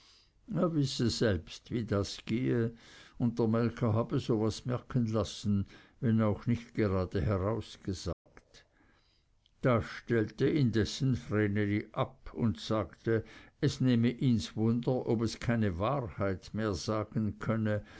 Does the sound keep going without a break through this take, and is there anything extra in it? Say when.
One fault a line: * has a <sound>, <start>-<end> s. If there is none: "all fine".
* has a dropout, 8.1-8.3 s